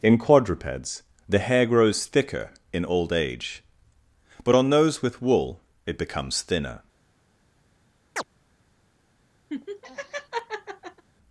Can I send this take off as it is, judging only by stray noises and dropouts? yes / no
no